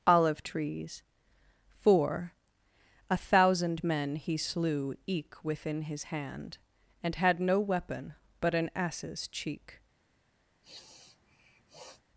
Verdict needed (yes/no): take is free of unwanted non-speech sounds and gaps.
no